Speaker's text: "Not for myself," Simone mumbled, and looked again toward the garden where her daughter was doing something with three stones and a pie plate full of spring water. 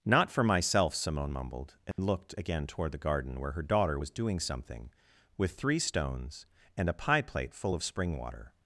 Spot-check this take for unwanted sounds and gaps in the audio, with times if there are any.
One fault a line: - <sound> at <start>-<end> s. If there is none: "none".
- dropout at 1.9-2.0 s